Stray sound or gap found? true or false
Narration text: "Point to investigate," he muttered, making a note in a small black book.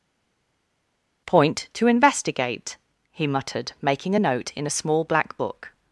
false